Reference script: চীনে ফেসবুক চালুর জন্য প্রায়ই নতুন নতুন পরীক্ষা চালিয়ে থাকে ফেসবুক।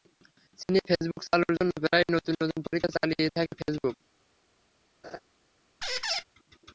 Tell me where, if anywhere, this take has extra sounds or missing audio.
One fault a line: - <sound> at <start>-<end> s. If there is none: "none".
- laugh at 5.0-5.2 s
- squeak at 5.8-6.2 s